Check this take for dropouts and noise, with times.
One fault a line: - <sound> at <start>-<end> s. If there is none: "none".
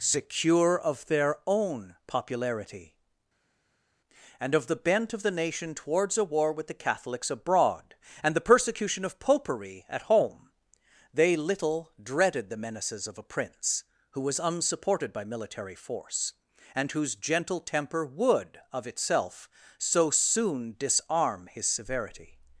none